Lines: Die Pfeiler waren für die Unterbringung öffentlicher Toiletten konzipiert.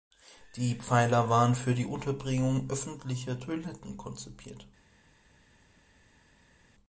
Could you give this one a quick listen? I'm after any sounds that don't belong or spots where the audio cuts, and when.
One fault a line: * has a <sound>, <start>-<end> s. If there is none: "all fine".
all fine